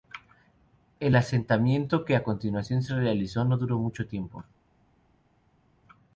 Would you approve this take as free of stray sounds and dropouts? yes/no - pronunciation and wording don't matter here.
yes